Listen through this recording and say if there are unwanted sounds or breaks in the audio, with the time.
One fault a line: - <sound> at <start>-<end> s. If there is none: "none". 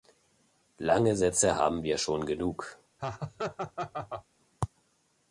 - laugh at 3.0-4.3 s